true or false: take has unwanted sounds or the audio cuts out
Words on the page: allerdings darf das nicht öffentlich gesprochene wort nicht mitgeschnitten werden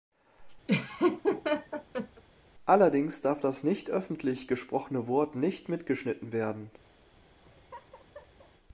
true